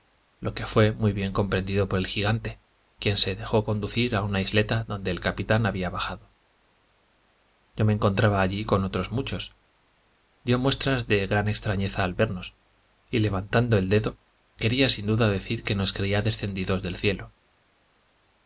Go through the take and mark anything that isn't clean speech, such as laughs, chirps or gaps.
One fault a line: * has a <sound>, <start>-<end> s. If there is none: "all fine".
all fine